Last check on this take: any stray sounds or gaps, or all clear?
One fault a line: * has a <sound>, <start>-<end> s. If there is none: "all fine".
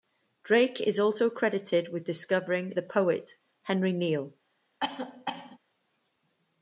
* has a cough, 4.8-5.6 s